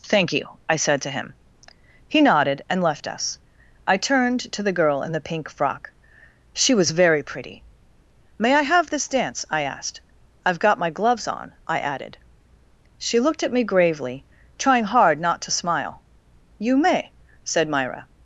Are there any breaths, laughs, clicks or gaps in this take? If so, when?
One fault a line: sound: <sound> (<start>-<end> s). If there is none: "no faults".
no faults